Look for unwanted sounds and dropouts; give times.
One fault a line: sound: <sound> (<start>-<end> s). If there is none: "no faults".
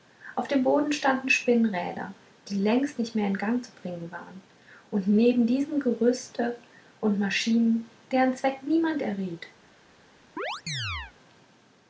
sound: chirp (10.4-11.1 s)